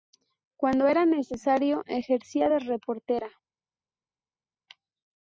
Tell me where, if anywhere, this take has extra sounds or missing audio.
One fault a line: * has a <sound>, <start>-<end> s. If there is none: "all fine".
all fine